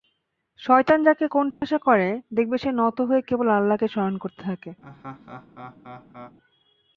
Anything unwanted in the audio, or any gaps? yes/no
yes